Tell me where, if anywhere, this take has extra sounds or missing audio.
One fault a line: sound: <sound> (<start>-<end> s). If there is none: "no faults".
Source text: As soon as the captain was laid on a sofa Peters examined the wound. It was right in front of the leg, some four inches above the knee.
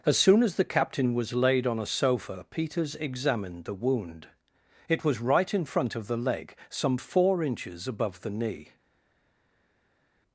no faults